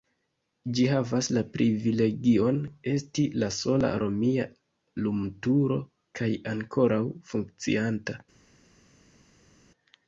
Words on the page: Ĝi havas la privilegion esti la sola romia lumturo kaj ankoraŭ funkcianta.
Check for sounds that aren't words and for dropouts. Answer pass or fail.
pass